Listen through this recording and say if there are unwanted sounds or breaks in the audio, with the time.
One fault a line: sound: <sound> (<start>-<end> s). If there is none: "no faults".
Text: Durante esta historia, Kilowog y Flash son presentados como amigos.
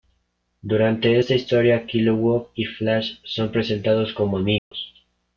sound: dropout (4.6-4.7 s)